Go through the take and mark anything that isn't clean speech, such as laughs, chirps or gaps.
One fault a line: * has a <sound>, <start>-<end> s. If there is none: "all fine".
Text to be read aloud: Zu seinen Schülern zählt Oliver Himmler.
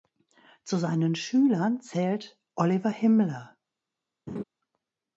* has a laugh, 4.3-4.4 s